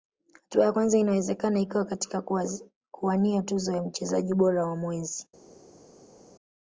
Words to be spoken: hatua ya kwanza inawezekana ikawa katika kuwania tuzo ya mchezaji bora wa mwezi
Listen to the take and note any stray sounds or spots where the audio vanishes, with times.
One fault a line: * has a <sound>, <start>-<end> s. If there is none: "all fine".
all fine